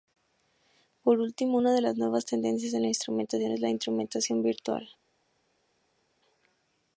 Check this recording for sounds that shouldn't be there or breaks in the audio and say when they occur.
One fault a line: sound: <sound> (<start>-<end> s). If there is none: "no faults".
no faults